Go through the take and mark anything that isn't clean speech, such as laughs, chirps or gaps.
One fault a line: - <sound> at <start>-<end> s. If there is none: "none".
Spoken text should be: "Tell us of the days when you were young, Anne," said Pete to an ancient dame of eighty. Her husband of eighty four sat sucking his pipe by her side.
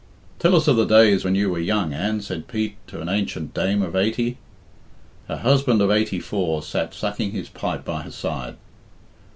none